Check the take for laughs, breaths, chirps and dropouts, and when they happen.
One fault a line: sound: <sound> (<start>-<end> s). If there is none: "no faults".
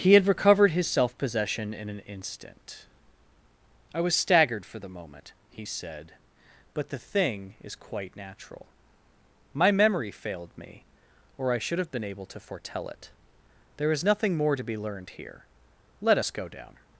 no faults